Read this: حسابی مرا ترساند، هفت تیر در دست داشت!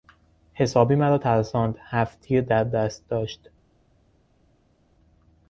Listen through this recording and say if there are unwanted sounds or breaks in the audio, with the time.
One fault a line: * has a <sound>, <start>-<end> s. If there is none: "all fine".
all fine